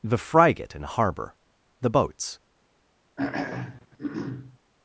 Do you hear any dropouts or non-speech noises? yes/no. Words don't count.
yes